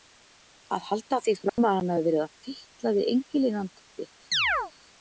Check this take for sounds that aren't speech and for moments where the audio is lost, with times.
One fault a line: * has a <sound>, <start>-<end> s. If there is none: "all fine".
* has a dropout, 1.5-1.6 s
* has a chirp, 4.3-4.7 s